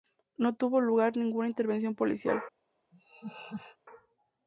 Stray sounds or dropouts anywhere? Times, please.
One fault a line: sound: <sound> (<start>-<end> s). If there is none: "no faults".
sound: laugh (2.9-3.8 s)